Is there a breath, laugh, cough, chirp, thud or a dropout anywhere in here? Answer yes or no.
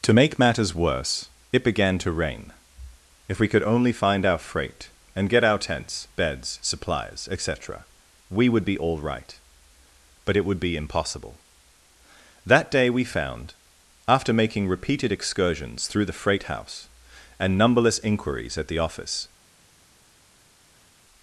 no